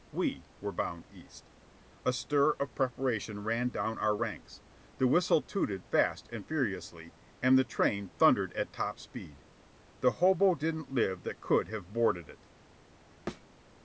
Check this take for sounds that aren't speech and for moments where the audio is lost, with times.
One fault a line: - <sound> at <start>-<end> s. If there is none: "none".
- thud at 13.3-13.5 s